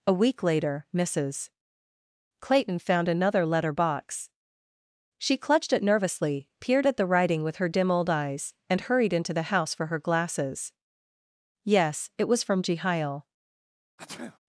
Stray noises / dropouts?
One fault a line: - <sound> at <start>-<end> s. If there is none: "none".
- sneeze at 14.0-14.4 s